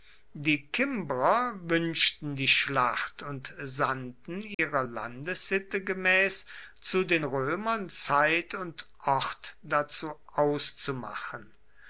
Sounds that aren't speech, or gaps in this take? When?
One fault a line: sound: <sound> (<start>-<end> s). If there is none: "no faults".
sound: dropout (4.5-4.6 s)